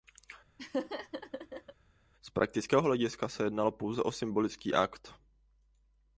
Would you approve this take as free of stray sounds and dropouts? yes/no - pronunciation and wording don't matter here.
no